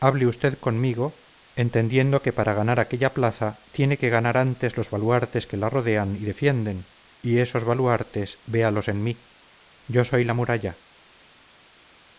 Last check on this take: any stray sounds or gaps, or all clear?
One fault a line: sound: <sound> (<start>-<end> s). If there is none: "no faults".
no faults